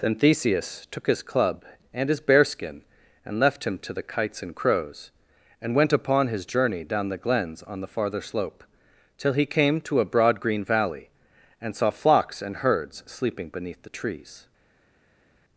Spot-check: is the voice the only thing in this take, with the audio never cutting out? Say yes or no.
yes